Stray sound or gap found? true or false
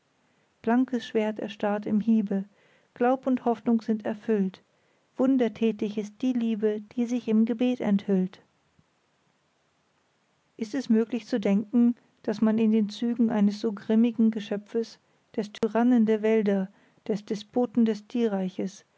true